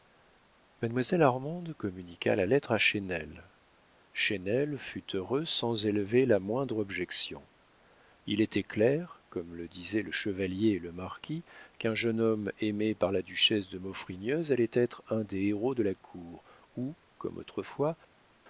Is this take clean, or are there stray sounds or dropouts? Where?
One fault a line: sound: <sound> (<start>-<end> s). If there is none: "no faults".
no faults